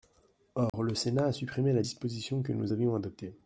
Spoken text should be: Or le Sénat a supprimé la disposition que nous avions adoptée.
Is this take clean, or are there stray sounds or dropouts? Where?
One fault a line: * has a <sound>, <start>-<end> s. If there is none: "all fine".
* has a dropout, 0.7-0.7 s